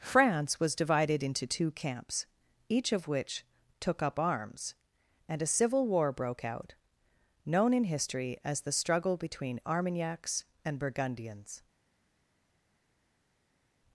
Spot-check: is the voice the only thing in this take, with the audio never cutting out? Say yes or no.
yes